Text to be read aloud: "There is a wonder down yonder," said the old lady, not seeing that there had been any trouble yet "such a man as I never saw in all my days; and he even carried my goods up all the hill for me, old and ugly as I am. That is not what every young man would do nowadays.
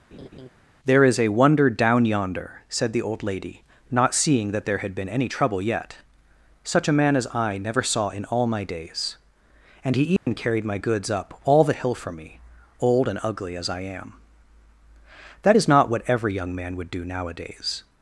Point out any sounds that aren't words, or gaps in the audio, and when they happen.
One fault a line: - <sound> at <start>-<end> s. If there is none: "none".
- laugh at 0.1-0.5 s
- dropout at 10.2-10.3 s